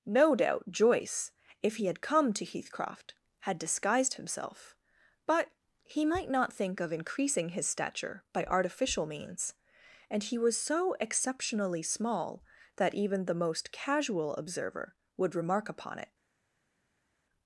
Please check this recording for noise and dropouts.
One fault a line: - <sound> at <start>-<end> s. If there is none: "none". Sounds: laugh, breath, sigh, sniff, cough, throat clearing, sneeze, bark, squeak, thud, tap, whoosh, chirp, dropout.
none